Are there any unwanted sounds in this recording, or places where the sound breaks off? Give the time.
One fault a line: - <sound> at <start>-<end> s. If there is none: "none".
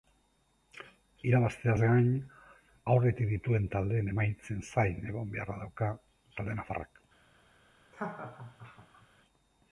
- laugh at 7.9-9.1 s